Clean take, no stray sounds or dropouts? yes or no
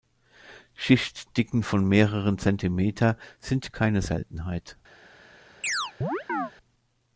no